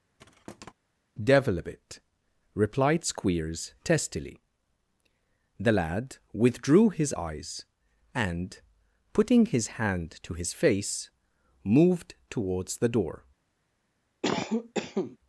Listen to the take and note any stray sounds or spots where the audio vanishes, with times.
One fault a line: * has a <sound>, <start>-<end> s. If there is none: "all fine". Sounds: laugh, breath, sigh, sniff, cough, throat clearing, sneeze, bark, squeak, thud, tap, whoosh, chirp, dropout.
* has a thud, 0.2-0.7 s
* has a cough, 14.2-15.2 s